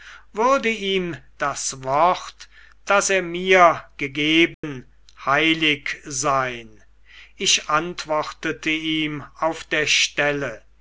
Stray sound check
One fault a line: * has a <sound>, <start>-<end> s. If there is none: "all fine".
* has a dropout, 4.5-4.6 s